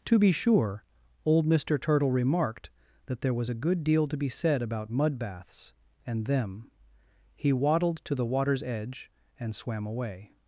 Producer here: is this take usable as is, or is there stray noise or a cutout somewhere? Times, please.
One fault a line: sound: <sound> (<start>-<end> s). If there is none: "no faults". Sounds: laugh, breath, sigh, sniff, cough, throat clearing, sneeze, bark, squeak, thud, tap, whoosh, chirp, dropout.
no faults